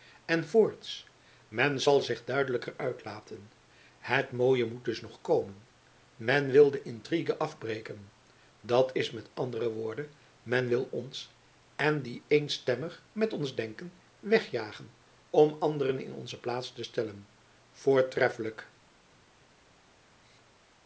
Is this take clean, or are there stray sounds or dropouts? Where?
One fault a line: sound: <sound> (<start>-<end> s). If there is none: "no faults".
no faults